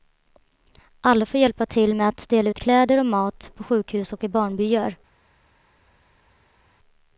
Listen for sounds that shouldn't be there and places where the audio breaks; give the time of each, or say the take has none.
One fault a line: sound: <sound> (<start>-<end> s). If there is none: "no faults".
no faults